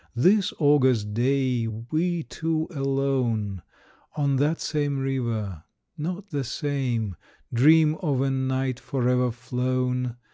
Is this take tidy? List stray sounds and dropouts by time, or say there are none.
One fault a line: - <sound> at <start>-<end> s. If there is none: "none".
none